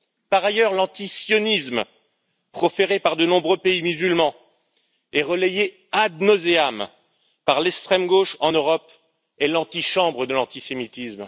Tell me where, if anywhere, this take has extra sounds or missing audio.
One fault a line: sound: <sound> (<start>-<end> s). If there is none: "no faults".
no faults